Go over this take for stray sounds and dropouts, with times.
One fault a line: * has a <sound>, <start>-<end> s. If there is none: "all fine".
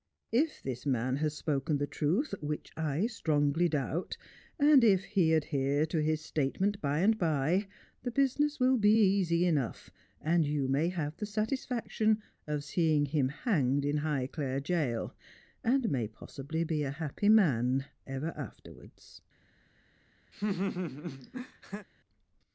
* has a laugh, 20.3-21.9 s